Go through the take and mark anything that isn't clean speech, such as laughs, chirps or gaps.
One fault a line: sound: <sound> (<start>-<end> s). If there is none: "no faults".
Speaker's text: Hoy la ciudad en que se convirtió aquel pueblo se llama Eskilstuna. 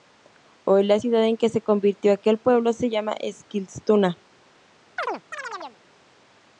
sound: chirp (5.0-5.8 s)